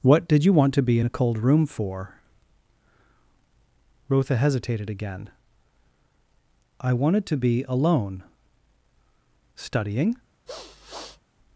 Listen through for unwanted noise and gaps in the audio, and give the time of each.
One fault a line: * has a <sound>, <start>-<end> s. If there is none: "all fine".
* has a sniff, 10.5-11.2 s